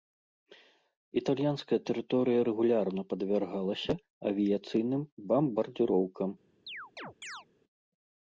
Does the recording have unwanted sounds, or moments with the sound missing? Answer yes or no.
yes